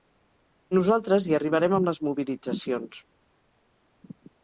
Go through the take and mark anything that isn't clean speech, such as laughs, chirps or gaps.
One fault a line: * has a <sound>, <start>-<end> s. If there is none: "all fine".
all fine